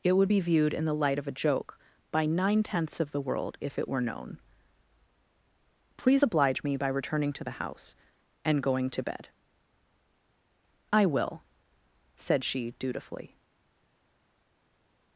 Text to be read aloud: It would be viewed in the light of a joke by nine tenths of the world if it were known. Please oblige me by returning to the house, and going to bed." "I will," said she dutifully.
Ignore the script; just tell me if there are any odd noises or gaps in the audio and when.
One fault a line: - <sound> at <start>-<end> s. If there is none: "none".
none